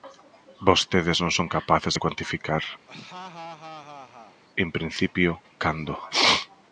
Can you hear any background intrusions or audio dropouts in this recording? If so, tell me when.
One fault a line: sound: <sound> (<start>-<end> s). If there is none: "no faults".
sound: laugh (2.9-4.4 s)